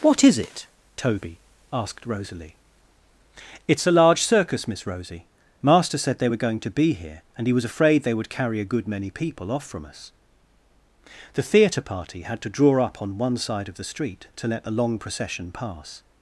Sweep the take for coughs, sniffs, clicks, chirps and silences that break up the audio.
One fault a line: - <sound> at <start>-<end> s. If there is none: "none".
none